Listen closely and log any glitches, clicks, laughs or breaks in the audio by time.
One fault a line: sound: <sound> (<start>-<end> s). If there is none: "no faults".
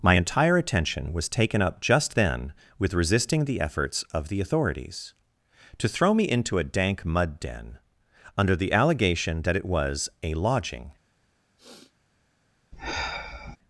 sound: sniff (11.6-11.9 s)
sound: sigh (12.7-13.6 s)